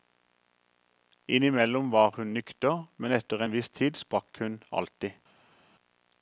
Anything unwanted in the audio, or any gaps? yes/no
no